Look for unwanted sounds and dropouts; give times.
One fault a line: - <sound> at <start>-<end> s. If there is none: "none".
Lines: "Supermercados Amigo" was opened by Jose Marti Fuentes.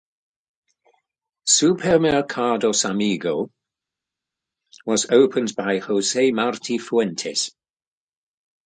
none